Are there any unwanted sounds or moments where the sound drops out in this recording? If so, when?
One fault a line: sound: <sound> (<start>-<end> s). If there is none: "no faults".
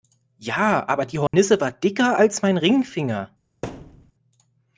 sound: dropout (1.3-1.3 s)
sound: thud (3.6-4.1 s)